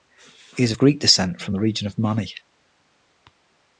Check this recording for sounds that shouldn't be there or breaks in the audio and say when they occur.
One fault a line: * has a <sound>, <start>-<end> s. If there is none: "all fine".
all fine